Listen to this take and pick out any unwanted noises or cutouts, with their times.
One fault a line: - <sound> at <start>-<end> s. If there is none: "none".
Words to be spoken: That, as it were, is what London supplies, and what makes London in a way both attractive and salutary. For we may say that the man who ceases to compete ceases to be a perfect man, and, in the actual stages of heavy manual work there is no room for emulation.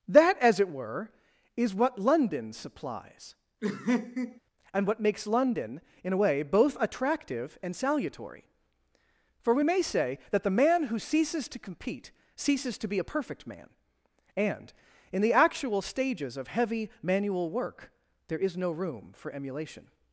- laugh at 3.6-4.4 s